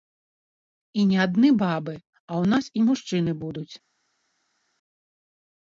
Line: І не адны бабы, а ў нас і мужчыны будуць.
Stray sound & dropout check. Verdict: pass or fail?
pass